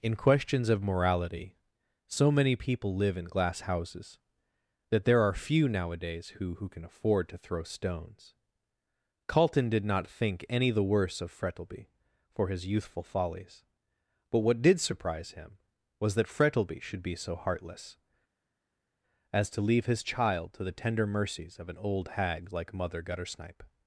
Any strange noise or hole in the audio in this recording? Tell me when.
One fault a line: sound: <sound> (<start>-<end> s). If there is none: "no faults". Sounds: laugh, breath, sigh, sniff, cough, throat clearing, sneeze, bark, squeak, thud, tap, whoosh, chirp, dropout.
no faults